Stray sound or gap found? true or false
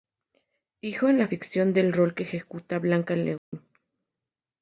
true